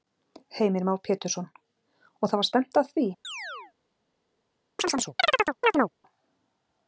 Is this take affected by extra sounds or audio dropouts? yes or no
yes